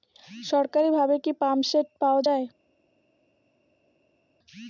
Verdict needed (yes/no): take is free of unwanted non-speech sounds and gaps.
yes